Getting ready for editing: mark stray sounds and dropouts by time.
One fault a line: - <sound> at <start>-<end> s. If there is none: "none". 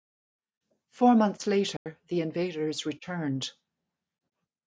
- dropout at 1.8-1.9 s